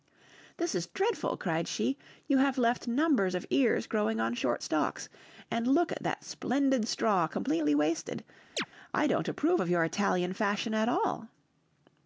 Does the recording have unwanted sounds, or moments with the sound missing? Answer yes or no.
yes